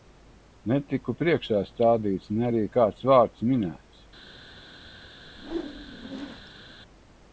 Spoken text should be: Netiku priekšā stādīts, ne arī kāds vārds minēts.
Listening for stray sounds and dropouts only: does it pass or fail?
fail